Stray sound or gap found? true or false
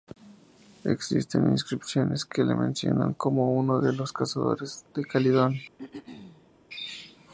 true